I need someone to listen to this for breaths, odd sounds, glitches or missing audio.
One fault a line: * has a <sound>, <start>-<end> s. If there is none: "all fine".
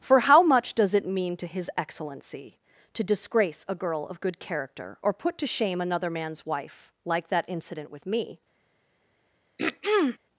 * has a throat clearing, 9.6-10.2 s